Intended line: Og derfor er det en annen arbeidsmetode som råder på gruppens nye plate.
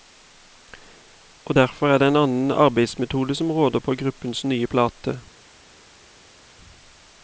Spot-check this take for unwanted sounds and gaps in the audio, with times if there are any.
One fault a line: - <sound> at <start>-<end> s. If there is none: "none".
none